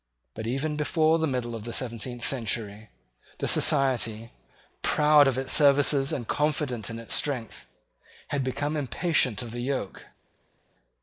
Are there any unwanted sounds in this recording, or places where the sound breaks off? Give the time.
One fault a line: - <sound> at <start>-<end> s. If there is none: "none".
none